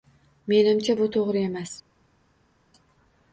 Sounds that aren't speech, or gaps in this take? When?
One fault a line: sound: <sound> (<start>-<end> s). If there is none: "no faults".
no faults